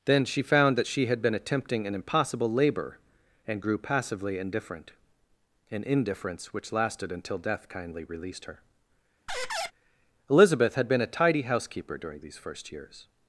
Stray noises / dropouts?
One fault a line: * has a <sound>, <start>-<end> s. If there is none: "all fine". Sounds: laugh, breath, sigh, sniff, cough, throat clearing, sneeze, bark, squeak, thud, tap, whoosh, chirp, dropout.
* has a squeak, 9.3-9.7 s